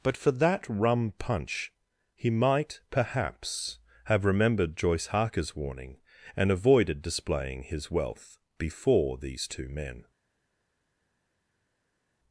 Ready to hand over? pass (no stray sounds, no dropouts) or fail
pass